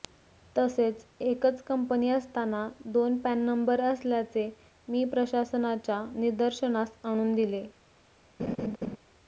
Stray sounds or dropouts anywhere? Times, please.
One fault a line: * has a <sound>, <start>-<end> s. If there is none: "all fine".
* has a laugh, 8.4-9.0 s